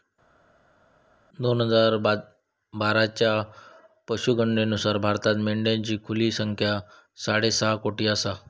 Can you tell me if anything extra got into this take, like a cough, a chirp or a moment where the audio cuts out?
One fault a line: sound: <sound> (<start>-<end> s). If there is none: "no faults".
no faults